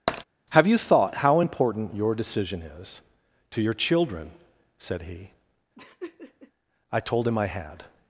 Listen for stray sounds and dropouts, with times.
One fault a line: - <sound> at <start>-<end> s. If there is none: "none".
- tap at 0.1-0.2 s
- laugh at 5.8-6.5 s